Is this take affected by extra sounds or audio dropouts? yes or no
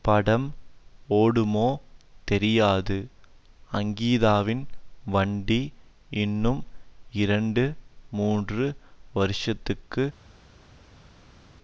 no